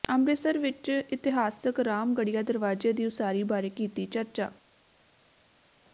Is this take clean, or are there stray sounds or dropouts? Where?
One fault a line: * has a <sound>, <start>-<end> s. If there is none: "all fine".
all fine